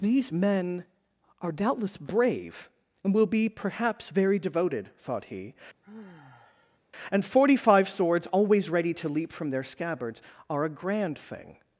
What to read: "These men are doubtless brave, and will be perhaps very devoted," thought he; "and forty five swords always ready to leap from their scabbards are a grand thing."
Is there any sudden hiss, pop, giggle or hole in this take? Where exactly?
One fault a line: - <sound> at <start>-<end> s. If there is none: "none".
- sigh at 5.8-6.8 s